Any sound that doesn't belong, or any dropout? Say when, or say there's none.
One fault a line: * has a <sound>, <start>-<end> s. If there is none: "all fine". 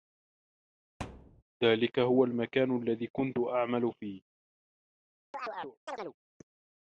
* has a thud, 1.0-1.4 s
* has a chirp, 5.3-6.2 s